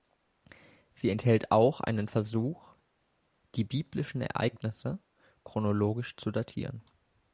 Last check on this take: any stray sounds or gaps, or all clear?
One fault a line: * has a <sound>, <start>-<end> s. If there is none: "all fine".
all fine